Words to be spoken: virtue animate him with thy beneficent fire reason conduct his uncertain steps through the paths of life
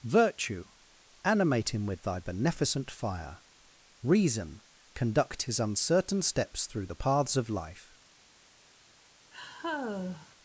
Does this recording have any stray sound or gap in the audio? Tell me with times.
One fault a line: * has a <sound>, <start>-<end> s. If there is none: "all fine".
* has a sigh, 9.3-10.4 s